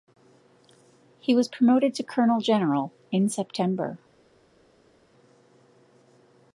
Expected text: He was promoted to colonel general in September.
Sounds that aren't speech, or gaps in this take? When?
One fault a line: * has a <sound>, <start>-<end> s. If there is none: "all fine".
all fine